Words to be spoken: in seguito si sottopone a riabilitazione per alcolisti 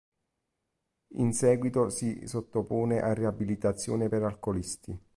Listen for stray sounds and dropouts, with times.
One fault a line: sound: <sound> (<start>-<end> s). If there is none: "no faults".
no faults